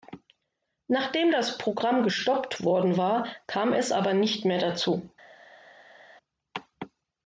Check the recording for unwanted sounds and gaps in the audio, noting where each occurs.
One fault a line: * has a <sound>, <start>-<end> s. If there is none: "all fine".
all fine